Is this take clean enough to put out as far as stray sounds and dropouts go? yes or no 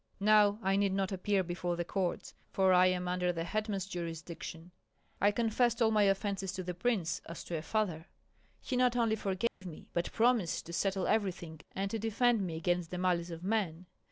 no